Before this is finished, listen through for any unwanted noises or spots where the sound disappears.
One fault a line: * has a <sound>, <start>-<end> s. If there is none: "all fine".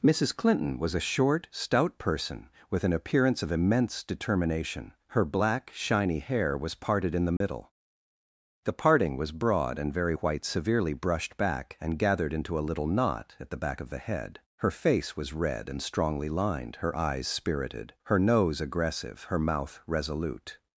* has a dropout, 7.4-7.4 s